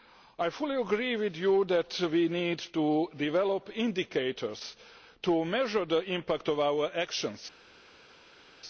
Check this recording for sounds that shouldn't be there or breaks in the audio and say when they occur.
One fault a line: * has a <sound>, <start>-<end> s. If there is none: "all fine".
all fine